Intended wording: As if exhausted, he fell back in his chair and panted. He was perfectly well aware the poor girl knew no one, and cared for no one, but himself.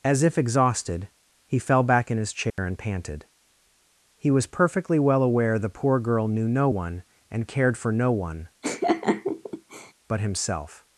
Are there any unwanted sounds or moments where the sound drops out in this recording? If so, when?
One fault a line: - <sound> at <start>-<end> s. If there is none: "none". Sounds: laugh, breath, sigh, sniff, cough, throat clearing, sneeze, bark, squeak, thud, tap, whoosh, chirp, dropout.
- dropout at 2.5-2.6 s
- laugh at 8.6-9.9 s